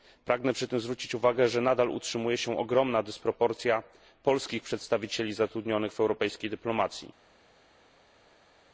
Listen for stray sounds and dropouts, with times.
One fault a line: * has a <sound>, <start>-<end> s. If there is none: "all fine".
all fine